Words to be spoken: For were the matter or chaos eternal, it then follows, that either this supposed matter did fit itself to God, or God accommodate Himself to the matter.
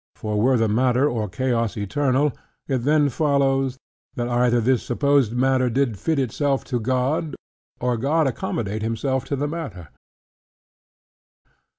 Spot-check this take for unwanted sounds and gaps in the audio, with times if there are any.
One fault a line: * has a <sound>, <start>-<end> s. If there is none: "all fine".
all fine